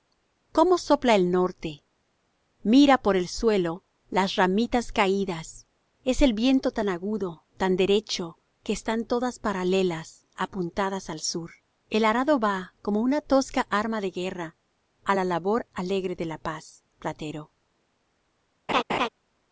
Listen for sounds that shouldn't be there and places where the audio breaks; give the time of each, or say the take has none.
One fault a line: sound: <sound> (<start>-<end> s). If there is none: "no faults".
sound: laugh (18.7-19.1 s)